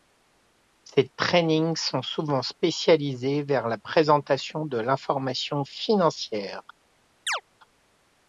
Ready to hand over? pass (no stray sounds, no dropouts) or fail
fail